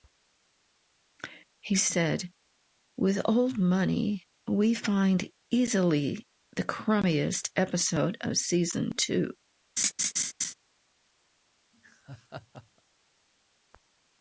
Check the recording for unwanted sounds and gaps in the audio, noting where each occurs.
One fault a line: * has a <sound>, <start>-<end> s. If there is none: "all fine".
* has a laugh, 9.8-10.5 s
* has a laugh, 11.7-12.8 s